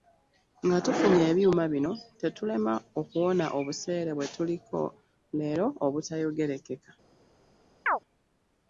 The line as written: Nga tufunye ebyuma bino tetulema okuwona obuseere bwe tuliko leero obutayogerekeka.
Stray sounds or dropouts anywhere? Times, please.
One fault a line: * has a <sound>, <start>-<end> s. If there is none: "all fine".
* has a chirp, 7.9-8.0 s